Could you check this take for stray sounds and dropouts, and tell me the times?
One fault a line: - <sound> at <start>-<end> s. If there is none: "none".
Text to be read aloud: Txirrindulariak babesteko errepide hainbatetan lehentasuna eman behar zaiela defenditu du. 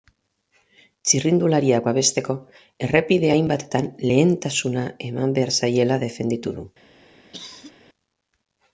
- cough at 7.3-7.7 s